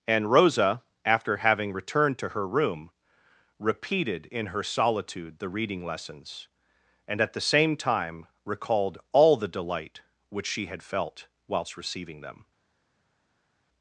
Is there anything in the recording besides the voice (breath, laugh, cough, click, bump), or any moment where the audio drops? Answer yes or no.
no